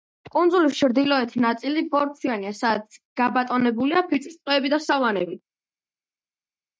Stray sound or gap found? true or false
false